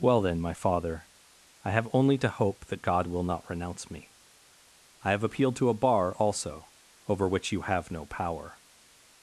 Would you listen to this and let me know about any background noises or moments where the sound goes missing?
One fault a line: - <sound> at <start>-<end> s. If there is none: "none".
none